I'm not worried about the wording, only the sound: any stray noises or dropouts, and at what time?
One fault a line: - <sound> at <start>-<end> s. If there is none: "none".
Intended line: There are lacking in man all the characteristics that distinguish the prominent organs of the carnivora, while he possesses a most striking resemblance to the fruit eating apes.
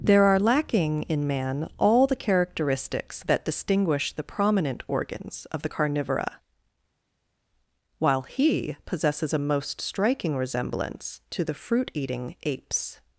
none